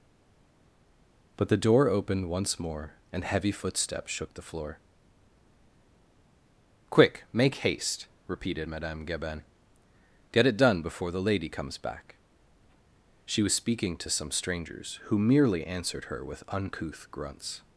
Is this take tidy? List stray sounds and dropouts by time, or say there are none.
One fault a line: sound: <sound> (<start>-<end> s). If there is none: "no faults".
no faults